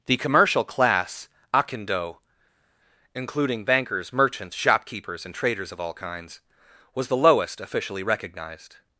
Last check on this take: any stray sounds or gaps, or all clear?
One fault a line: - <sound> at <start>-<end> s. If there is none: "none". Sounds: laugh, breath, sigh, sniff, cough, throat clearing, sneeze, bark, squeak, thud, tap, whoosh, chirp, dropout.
none